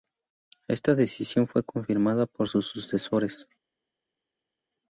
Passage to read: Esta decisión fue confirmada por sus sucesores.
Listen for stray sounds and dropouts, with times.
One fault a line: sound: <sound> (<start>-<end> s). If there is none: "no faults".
no faults